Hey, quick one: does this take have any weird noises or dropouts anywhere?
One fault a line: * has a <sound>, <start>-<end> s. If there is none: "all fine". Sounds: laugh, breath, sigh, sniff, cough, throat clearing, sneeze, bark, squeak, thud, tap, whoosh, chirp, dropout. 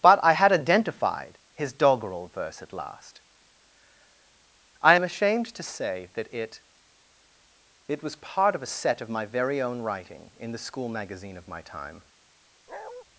* has a bark, 12.7-13.0 s